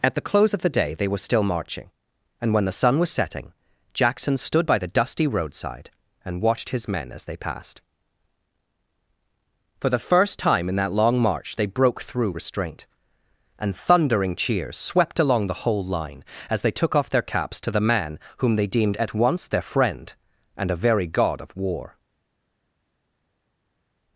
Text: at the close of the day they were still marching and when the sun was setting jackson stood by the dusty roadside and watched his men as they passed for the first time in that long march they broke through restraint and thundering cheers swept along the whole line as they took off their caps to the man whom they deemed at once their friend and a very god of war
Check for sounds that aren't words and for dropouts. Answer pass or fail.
pass